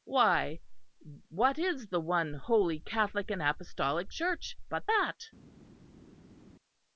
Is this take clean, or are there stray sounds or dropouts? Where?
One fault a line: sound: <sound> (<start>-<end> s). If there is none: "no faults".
no faults